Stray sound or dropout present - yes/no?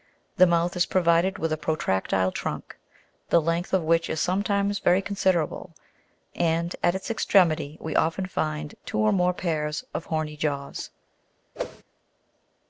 yes